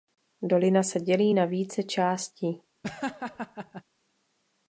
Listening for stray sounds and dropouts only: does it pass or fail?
fail